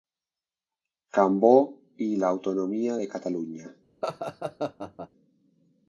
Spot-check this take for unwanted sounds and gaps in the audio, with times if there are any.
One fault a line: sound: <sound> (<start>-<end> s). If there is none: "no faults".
sound: laugh (4.0-5.1 s)